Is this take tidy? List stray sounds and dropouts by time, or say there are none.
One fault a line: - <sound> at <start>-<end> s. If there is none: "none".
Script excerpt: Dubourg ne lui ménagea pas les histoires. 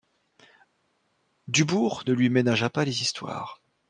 none